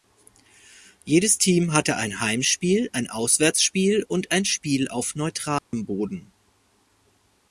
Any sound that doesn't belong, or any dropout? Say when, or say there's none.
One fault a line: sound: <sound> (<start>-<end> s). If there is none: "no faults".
sound: dropout (5.6-5.7 s)